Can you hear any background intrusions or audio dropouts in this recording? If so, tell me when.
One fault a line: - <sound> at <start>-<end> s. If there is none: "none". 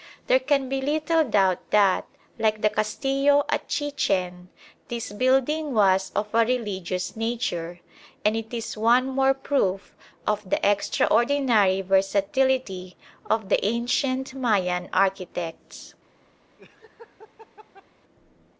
- laugh at 16.6-17.9 s